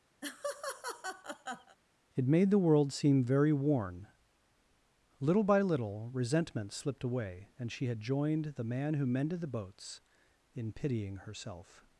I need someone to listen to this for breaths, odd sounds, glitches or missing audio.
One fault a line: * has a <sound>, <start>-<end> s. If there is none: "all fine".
* has a laugh, 0.2-1.8 s